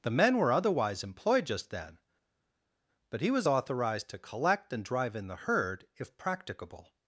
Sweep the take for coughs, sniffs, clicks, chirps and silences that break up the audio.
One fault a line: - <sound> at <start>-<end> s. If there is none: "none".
none